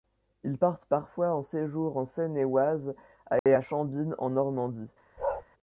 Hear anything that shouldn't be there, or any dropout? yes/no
yes